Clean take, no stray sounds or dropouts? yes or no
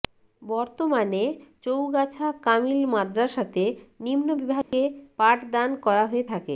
no